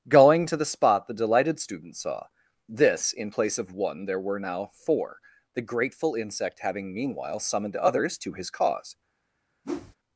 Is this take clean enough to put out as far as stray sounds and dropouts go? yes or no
no